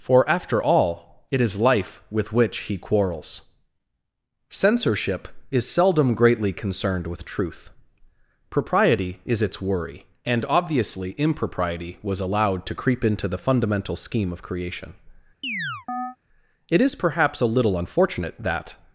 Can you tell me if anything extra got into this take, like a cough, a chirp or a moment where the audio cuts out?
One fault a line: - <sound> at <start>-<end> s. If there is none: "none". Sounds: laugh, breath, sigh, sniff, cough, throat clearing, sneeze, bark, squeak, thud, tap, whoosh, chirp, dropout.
- chirp at 15.4-16.2 s